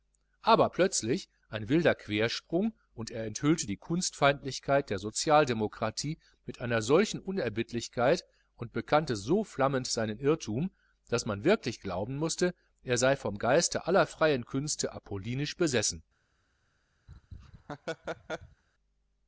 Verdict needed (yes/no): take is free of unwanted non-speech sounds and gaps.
no